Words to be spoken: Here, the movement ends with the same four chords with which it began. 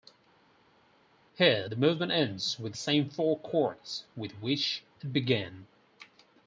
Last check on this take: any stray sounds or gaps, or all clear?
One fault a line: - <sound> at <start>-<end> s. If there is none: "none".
none